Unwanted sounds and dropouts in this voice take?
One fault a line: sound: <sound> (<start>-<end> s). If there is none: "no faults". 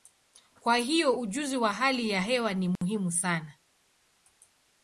sound: dropout (2.8-2.8 s)